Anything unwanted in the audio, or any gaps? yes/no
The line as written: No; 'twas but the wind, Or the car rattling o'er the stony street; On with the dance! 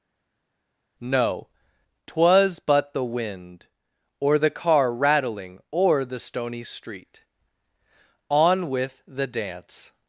no